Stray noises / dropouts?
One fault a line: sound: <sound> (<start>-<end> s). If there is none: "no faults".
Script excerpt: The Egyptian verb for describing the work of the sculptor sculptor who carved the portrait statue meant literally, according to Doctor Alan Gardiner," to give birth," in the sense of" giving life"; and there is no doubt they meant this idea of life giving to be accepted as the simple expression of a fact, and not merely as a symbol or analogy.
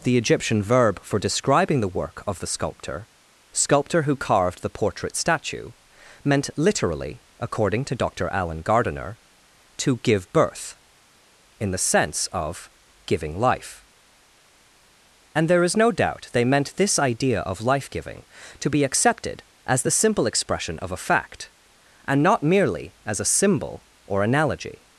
no faults